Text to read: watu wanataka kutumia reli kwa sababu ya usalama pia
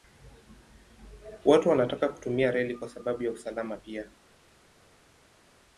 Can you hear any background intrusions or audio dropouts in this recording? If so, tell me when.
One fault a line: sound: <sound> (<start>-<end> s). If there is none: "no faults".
no faults